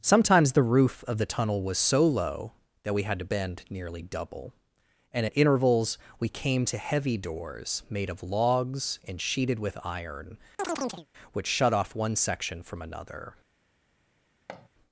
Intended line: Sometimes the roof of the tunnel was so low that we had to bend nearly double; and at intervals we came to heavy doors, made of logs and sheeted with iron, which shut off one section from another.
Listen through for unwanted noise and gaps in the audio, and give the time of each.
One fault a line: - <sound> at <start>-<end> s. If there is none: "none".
- chirp at 10.6-11.1 s
- thud at 14.5-14.7 s